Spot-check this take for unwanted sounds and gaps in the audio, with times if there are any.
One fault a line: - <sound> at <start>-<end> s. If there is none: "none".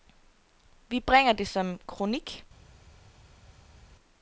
none